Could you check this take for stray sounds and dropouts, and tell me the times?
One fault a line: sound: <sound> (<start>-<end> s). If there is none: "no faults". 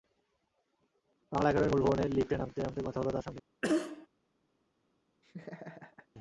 sound: cough (3.6-4.1 s)
sound: laugh (5.2-6.1 s)